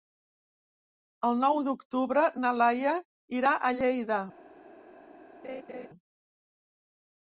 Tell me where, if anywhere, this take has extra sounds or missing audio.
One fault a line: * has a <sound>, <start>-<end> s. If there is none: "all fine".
* has a laugh, 5.4-5.9 s